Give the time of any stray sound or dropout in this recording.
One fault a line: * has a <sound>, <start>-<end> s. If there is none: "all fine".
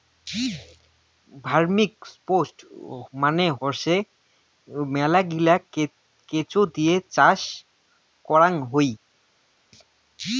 all fine